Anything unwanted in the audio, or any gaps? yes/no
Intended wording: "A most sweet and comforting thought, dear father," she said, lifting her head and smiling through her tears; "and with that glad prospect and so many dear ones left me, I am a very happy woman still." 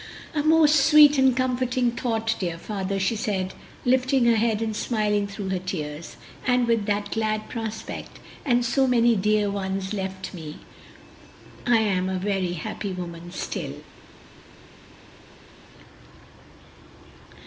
no